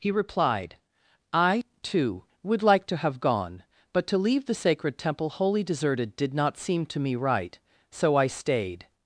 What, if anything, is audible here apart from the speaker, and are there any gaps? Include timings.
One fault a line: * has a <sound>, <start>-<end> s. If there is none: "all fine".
all fine